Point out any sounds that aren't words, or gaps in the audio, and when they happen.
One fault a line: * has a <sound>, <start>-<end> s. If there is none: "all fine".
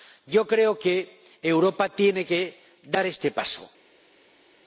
all fine